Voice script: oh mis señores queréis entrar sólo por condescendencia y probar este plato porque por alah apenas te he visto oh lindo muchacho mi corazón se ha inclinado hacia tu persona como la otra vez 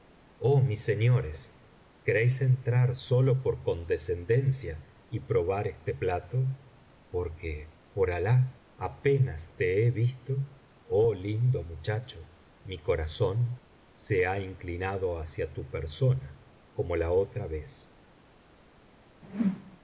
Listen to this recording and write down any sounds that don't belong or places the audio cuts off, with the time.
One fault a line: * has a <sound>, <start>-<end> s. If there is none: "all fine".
* has a whoosh, 19.2-19.8 s